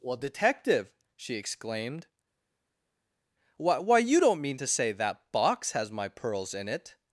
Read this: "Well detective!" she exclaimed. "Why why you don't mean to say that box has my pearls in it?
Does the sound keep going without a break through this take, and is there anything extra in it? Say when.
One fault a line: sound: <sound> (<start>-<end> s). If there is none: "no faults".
no faults